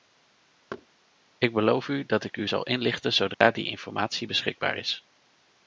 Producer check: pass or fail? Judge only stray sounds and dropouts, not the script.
fail